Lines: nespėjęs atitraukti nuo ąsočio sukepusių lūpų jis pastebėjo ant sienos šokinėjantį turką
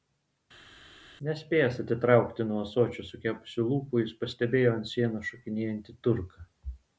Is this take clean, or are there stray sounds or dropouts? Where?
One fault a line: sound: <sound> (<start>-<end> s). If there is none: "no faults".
no faults